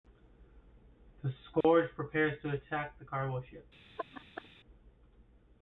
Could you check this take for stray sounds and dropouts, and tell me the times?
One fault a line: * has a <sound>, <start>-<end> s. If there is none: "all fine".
* has a dropout, 1.6-1.6 s
* has a laugh, 4.0-4.5 s